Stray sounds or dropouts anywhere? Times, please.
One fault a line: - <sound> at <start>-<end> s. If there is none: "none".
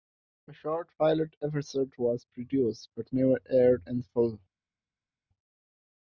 none